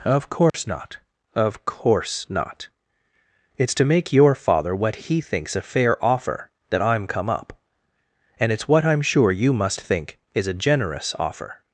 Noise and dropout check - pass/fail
fail